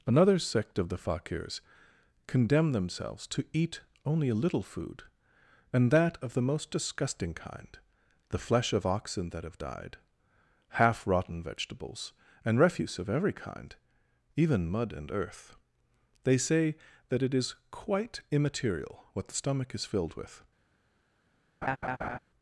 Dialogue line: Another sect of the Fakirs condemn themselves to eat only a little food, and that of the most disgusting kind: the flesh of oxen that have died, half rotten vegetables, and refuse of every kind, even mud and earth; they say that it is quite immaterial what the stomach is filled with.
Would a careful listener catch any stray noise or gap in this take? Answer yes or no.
yes